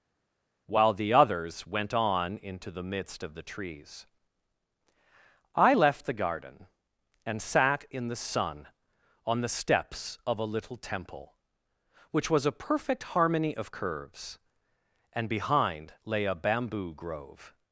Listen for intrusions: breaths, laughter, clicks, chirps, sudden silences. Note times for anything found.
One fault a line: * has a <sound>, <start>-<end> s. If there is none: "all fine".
all fine